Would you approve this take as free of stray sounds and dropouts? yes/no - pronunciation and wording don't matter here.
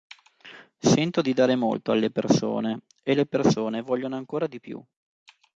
yes